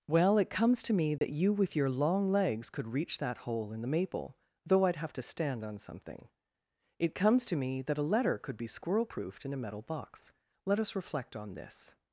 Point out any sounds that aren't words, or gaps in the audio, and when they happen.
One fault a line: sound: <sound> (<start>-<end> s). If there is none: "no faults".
sound: dropout (1.2-1.2 s)